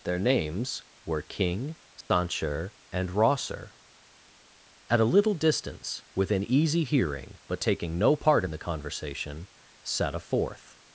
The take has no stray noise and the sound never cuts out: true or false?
false